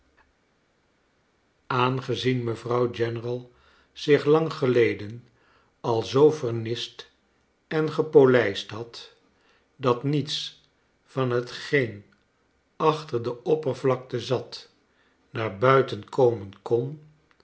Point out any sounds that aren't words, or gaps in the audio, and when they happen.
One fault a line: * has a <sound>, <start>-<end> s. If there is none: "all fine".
all fine